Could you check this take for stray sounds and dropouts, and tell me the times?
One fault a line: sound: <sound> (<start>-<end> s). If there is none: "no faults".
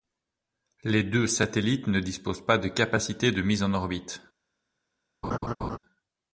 sound: laugh (5.2-5.8 s)